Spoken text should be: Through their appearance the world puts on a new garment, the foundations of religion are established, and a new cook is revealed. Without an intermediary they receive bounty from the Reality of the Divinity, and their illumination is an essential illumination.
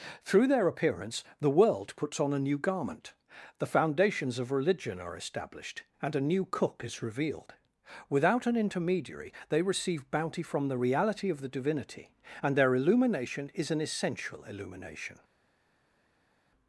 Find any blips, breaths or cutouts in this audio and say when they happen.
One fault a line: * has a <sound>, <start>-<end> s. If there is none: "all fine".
all fine